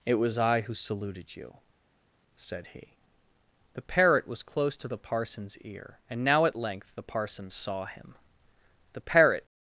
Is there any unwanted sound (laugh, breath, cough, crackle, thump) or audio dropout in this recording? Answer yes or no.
no